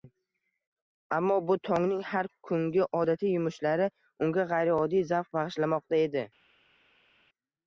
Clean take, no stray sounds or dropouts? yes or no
yes